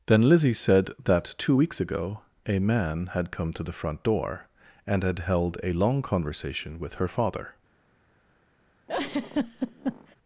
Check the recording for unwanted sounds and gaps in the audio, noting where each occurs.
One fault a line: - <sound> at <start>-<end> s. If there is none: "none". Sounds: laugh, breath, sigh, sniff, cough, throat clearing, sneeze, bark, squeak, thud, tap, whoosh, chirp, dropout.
- laugh at 8.9-10.2 s